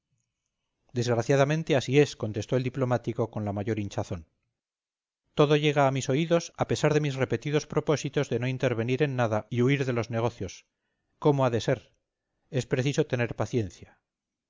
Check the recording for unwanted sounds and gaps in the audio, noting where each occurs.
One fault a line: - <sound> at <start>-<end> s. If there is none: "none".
none